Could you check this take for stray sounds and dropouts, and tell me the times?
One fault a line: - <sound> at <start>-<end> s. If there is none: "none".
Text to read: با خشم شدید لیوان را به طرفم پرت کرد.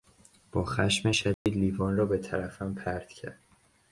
- dropout at 1.3-1.5 s